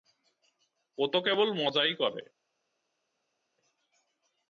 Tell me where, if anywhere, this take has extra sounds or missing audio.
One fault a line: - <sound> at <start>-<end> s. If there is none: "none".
none